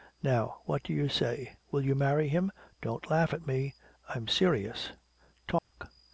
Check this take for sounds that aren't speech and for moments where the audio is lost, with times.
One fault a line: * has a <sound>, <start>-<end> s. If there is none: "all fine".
* has a dropout, 5.6-5.7 s